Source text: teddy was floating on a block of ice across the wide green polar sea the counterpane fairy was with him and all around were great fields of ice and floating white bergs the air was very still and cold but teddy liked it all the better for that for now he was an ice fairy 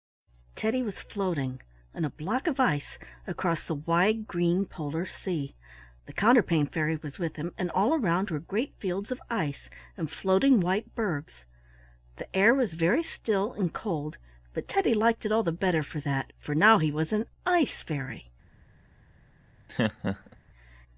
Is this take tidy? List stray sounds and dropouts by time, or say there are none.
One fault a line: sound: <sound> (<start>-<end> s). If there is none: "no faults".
sound: laugh (19.7-20.4 s)